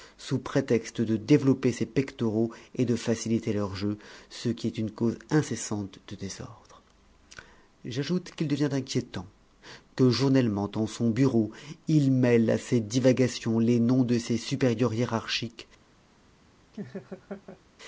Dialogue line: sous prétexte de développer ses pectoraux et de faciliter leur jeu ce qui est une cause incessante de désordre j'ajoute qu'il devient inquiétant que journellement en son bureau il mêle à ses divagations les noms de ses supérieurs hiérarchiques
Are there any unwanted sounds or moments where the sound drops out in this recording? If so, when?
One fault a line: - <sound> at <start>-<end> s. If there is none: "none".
- laugh at 16.7-17.6 s